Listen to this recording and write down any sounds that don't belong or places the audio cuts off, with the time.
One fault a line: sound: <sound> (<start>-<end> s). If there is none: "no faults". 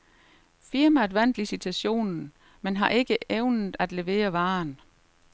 no faults